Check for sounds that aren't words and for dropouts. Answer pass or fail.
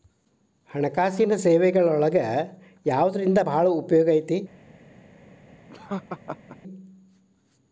fail